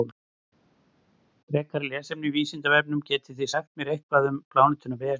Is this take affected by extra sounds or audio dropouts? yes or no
no